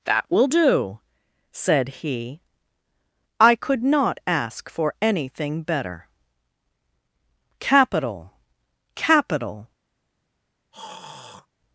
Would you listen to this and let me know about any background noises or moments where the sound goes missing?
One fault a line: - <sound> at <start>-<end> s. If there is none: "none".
- throat clearing at 10.7-11.5 s